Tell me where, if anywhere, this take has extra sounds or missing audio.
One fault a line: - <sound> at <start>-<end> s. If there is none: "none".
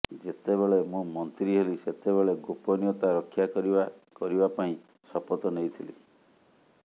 none